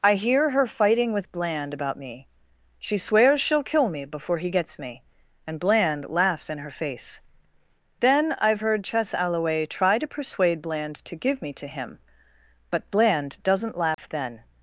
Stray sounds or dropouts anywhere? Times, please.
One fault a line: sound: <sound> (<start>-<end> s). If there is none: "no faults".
sound: dropout (13.9-14.0 s)